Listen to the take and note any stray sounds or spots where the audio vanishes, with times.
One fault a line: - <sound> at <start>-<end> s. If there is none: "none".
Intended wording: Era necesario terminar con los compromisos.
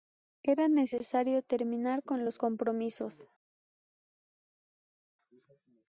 none